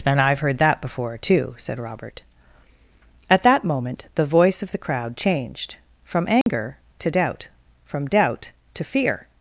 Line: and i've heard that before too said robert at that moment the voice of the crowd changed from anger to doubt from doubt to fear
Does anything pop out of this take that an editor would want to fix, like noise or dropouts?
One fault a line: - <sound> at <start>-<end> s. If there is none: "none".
- dropout at 6.4-6.5 s